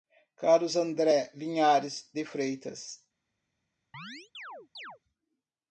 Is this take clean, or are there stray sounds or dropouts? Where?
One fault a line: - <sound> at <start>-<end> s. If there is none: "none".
- chirp at 3.9-5.0 s